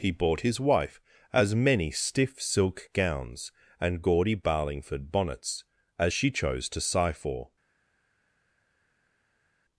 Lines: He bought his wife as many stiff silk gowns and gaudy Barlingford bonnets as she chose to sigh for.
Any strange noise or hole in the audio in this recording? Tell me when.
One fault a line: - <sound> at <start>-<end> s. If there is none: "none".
none